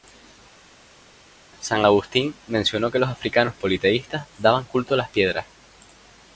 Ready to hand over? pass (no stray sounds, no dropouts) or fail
pass